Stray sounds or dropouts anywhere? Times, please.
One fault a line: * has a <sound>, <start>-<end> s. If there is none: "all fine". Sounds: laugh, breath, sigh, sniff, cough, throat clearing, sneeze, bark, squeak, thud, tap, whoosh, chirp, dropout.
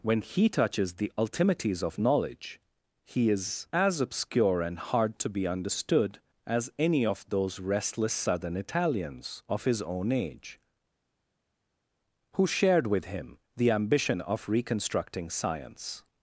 all fine